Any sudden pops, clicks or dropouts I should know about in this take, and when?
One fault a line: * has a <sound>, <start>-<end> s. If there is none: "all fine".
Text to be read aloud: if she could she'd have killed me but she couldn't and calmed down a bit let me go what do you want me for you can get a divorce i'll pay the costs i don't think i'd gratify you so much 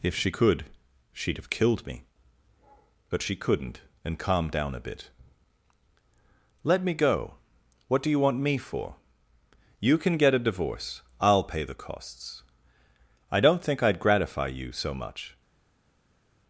all fine